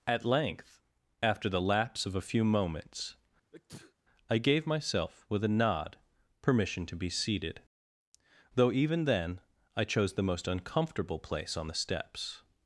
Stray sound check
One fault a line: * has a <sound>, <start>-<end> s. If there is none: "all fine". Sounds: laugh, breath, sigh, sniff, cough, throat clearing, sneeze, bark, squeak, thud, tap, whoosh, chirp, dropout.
* has a sneeze, 3.5-3.9 s